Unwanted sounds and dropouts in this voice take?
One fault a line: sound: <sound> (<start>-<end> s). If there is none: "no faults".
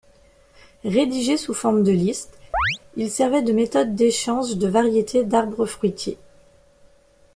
sound: chirp (2.5-2.8 s)